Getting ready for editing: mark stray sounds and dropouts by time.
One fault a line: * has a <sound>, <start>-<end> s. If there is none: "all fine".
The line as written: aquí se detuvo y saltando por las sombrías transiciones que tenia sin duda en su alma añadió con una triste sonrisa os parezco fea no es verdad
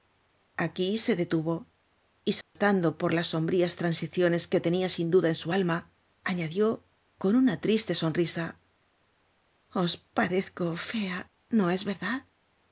* has a dropout, 2.4-2.6 s